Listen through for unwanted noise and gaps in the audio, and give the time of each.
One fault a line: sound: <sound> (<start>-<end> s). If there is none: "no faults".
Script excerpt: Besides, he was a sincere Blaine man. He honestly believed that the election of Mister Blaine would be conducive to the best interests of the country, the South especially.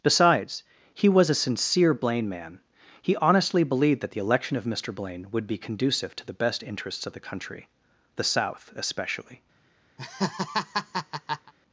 sound: laugh (10.0-11.5 s)